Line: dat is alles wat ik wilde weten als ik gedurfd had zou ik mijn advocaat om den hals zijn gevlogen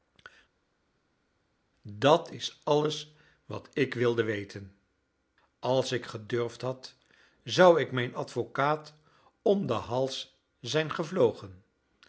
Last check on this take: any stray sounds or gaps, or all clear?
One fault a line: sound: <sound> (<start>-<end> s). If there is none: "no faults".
no faults